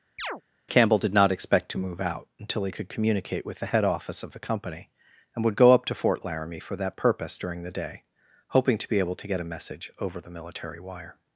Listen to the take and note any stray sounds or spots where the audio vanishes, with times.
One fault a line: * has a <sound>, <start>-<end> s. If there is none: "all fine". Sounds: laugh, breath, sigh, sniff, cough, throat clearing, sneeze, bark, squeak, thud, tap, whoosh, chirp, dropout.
* has a chirp, 0.2-0.4 s